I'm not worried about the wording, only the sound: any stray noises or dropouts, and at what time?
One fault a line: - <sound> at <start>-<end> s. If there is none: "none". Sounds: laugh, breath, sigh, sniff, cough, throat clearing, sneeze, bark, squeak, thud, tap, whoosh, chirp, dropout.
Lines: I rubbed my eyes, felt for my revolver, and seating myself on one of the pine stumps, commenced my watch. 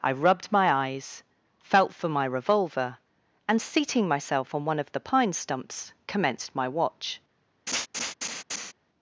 - laugh at 7.7-8.7 s